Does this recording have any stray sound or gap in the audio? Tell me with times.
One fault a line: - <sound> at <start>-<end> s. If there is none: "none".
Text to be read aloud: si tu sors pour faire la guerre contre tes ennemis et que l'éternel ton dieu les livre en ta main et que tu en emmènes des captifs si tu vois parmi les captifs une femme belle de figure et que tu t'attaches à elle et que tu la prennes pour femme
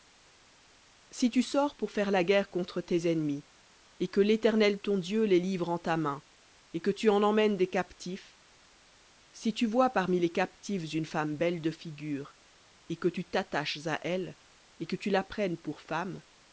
none